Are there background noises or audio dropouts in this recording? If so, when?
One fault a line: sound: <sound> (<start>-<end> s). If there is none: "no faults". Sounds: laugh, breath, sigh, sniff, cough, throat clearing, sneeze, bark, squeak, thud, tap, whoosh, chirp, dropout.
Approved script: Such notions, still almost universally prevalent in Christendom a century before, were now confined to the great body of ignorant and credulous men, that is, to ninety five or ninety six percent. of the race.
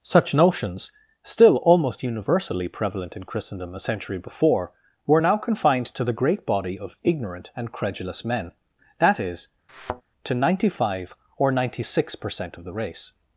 sound: thud (9.7-10.0 s)